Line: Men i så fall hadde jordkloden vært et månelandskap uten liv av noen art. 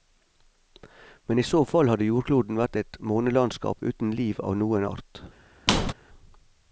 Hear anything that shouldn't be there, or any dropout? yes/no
yes